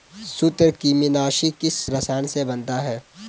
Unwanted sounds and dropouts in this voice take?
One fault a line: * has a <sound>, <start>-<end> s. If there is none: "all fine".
all fine